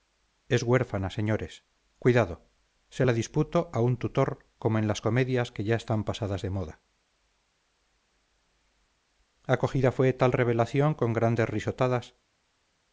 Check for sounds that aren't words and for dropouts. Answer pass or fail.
pass